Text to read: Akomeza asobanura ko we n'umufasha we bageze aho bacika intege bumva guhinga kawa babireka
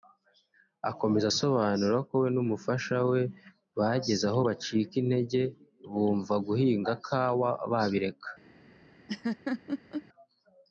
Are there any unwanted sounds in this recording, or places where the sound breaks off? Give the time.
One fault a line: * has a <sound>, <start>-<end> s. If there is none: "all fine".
* has a laugh, 9.1-10.0 s